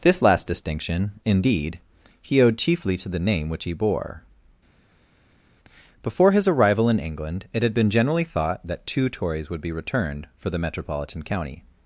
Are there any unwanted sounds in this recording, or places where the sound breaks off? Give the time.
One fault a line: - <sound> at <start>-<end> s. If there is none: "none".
none